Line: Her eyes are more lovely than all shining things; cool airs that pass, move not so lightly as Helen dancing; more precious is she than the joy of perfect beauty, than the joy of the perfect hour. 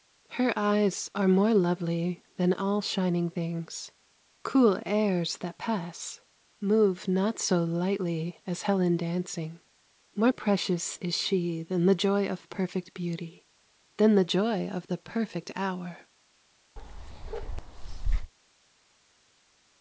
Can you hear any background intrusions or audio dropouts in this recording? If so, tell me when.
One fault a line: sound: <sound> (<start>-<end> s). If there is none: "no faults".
sound: bark (16.8-18.3 s)